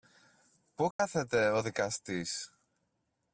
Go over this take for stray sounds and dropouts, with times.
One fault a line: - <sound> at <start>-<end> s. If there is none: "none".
- dropout at 0.9-1.0 s